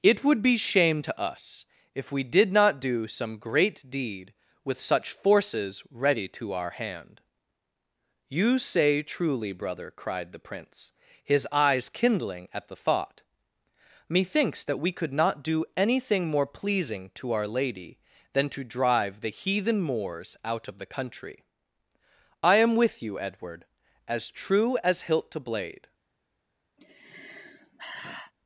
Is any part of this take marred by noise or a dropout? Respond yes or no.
yes